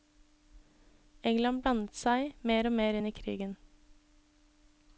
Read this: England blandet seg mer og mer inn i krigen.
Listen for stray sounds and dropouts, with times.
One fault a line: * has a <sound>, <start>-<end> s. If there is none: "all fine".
all fine